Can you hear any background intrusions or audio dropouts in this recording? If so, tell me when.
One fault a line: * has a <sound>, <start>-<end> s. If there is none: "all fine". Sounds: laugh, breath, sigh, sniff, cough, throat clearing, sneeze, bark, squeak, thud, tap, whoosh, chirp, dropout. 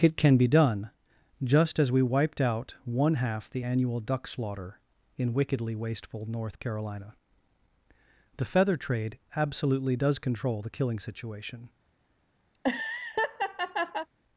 * has a laugh, 12.5-14.1 s